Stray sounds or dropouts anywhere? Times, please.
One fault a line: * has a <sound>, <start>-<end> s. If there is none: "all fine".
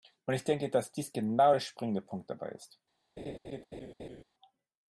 * has a laugh, 3.2-4.2 s